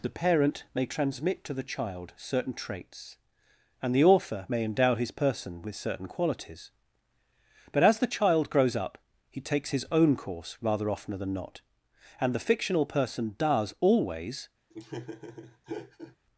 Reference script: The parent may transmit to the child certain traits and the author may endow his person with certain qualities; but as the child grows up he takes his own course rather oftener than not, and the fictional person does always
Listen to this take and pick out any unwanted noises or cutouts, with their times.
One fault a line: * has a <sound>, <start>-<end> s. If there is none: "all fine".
* has a laugh, 14.7-16.2 s